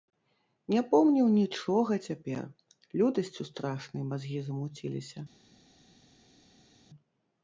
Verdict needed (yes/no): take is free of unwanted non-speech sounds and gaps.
yes